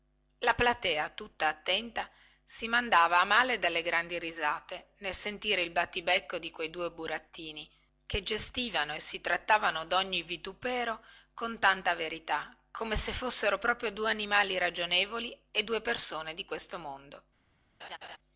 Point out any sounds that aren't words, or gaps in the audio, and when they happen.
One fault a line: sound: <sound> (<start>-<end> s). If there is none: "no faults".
sound: laugh (17.8-18.2 s)